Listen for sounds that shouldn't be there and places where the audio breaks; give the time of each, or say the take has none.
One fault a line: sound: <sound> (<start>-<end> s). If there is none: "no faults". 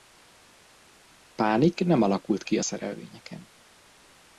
no faults